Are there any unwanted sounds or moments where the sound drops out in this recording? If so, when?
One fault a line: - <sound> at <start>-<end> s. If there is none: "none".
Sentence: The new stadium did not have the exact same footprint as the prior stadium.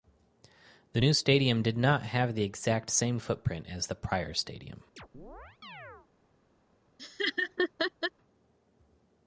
- chirp at 5.0-6.1 s
- laugh at 7.0-8.1 s